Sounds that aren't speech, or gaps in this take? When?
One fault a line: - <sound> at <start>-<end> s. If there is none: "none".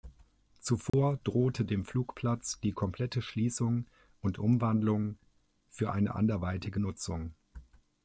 - dropout at 0.9-0.9 s